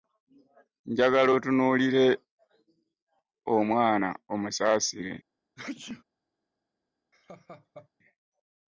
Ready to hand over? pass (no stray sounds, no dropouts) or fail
fail